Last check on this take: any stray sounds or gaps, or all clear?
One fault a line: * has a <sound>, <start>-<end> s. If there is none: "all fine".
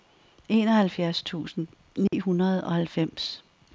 * has a dropout, 2.1-2.1 s